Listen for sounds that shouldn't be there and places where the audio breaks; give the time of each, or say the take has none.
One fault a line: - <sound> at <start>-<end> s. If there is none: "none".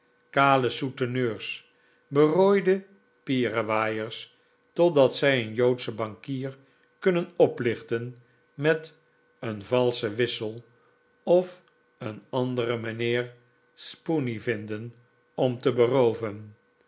none